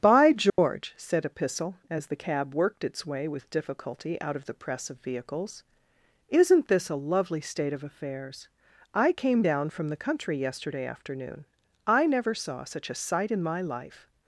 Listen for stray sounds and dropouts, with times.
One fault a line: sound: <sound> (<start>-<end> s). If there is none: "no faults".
sound: dropout (0.5-0.6 s)